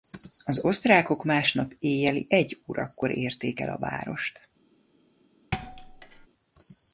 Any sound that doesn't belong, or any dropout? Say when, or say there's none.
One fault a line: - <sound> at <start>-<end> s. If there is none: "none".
- thud at 5.5-6.3 s